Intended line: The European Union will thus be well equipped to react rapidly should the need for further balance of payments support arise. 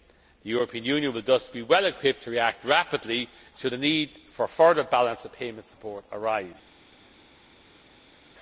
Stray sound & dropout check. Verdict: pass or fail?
pass